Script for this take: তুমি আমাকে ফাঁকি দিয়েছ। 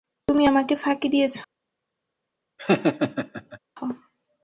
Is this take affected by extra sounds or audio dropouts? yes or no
yes